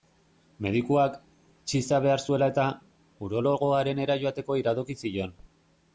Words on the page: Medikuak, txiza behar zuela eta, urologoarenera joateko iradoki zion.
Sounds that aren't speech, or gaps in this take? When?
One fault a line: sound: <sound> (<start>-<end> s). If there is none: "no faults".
no faults